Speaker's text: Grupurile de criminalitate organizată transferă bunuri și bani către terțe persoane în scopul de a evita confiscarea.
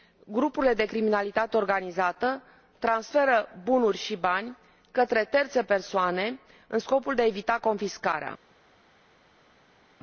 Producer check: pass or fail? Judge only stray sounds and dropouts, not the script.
pass